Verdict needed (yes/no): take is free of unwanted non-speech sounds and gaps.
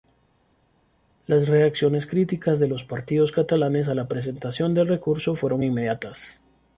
yes